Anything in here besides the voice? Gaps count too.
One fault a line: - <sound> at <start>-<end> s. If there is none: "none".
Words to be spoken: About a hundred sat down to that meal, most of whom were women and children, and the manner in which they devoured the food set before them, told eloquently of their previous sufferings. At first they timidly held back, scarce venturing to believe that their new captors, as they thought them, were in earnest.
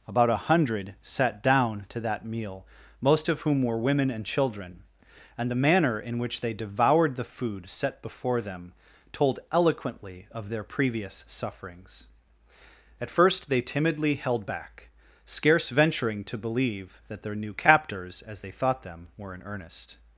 none